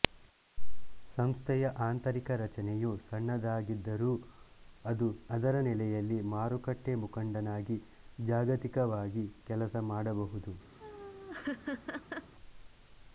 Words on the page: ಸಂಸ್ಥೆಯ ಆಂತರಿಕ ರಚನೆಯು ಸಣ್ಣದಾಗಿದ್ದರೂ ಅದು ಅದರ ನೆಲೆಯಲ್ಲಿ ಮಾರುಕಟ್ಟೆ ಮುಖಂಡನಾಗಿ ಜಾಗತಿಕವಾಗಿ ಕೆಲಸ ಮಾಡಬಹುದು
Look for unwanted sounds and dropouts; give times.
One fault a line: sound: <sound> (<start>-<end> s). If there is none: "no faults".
sound: laugh (10.8-12.3 s)